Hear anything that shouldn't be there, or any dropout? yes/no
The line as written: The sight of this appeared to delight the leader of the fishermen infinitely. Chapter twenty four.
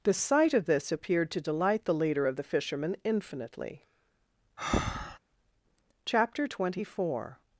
yes